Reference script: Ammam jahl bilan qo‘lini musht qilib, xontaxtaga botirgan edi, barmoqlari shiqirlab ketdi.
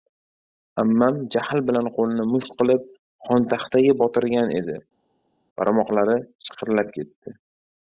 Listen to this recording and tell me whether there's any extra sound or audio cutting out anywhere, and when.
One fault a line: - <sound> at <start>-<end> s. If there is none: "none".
none